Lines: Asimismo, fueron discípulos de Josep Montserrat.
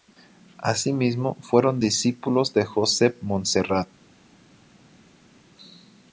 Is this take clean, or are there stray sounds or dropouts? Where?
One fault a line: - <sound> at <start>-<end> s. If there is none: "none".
none